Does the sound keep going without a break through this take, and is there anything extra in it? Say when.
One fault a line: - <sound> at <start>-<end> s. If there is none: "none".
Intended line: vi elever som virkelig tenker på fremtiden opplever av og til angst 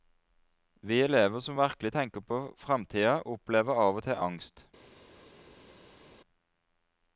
none